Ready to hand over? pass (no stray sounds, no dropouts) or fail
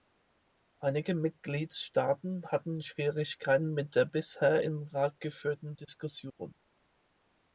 pass